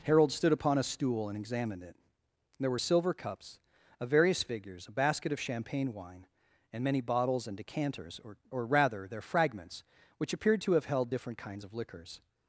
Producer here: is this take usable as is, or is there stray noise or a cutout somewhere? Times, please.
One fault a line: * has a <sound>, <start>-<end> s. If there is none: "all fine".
all fine